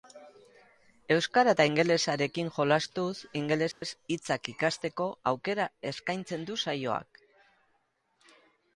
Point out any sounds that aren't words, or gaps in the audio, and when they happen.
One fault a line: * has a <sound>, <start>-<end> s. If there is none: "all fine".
* has a dropout, 3.7-3.8 s